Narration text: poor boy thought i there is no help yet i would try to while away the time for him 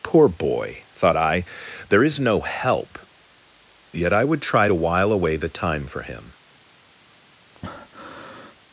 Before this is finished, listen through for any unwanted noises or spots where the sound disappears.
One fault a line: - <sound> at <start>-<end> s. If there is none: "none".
- breath at 7.5-8.6 s